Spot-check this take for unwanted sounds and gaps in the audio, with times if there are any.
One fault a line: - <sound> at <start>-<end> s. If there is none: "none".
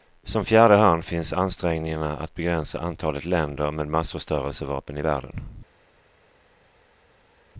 none